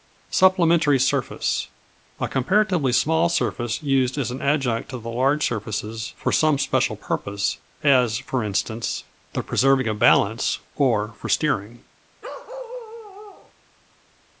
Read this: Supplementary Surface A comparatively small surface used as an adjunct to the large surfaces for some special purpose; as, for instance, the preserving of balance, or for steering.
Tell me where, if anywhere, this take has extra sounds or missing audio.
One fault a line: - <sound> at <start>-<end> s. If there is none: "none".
- bark at 12.2-13.5 s